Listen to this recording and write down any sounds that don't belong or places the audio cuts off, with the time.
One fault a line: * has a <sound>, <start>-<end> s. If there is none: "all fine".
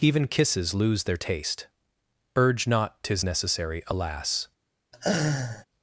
* has a laugh, 4.9-5.7 s